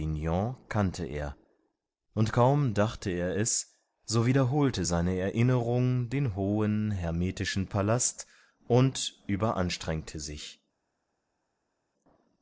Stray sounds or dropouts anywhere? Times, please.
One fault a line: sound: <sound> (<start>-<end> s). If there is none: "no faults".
no faults